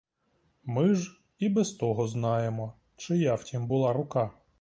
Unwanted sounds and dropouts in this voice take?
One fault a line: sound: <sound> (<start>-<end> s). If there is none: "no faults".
no faults